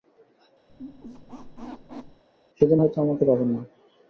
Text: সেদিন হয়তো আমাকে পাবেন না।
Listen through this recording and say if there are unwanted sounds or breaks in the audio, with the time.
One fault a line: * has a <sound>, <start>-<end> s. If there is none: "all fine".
* has a squeak, 0.7-2.2 s